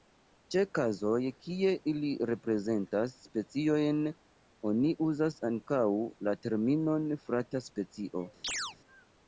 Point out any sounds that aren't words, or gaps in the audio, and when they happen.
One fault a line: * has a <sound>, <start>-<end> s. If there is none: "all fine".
* has a chirp, 8.4-8.8 s